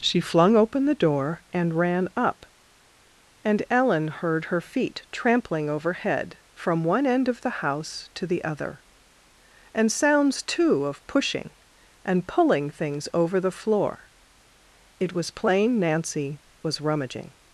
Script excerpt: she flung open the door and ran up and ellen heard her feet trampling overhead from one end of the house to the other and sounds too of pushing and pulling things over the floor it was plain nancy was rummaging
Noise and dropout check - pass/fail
pass